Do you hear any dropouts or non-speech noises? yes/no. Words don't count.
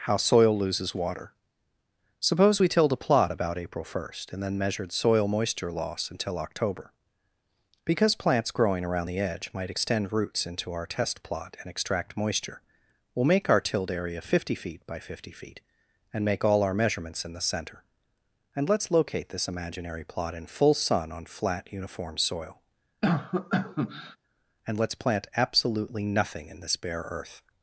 yes